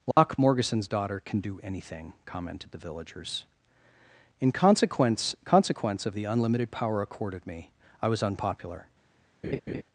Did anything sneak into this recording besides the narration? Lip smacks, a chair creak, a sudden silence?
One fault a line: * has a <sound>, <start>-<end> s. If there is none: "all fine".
* has a dropout, 0.1-0.2 s
* has a laugh, 9.4-9.8 s